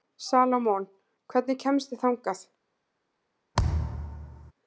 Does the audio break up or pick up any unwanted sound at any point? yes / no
yes